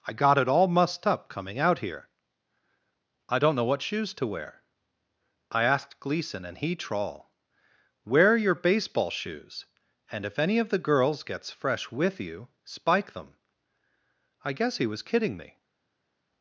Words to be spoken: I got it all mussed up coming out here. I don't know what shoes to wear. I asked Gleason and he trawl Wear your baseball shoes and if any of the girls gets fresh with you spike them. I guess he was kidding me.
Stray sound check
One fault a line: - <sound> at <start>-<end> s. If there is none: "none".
none